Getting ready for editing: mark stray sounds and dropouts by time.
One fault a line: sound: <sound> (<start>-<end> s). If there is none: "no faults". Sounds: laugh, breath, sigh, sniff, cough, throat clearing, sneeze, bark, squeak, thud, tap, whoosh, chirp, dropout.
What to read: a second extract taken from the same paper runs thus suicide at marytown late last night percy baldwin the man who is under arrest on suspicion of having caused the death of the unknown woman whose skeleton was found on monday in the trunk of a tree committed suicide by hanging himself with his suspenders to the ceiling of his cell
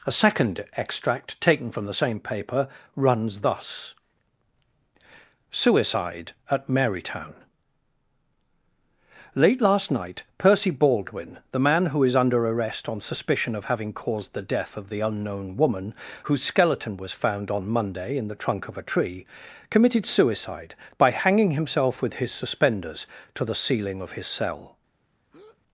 sound: breath (25.3-25.6 s)